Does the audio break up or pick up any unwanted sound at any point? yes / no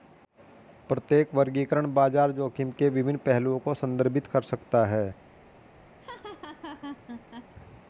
yes